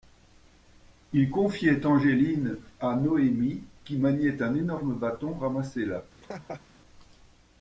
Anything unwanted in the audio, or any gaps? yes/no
yes